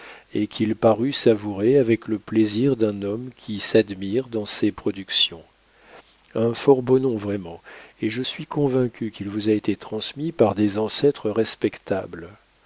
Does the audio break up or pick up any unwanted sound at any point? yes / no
no